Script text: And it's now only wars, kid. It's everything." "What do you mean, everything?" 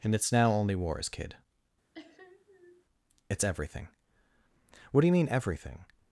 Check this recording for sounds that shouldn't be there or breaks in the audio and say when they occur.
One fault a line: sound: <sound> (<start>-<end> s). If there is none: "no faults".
sound: sniff (1.9-2.9 s)